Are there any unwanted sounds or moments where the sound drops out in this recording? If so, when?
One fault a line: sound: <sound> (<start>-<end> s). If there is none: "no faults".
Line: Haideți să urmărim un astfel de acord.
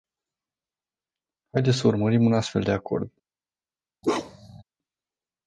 sound: bark (4.0-4.6 s)